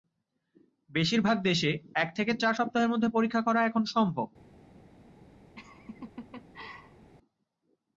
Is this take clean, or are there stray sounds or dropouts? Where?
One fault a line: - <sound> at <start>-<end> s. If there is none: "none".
- laugh at 5.6-7.1 s